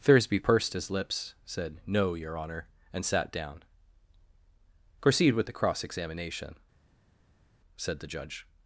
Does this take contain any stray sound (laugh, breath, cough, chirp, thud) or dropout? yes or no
no